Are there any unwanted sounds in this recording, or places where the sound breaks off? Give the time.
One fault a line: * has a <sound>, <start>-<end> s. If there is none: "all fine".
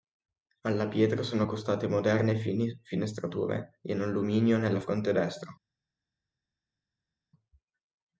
all fine